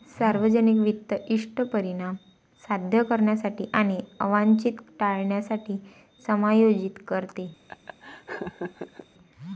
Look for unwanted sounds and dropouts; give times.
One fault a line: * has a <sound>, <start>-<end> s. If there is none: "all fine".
* has a laugh, 7.7-9.1 s